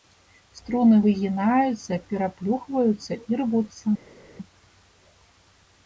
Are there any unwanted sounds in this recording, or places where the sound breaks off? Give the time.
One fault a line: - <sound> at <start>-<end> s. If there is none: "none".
none